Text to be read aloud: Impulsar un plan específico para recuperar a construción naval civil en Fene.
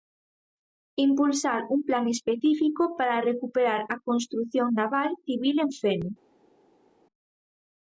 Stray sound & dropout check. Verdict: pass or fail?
pass